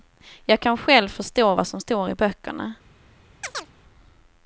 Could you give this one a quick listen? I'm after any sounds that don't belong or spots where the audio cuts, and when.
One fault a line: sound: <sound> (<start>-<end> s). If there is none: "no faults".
sound: chirp (3.4-3.7 s)